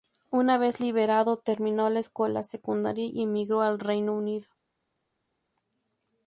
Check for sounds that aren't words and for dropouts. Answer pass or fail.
pass